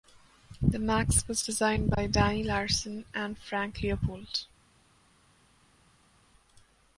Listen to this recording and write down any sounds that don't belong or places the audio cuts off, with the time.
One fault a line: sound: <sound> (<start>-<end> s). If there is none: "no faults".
no faults